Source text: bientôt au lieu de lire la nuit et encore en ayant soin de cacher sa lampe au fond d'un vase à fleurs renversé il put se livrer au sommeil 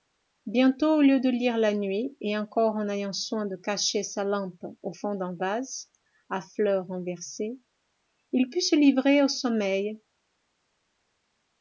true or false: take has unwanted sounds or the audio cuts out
false